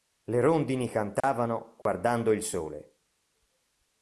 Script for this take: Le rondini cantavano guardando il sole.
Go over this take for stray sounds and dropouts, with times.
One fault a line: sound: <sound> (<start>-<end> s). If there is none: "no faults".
sound: dropout (1.2-1.2 s)
sound: dropout (1.8-1.9 s)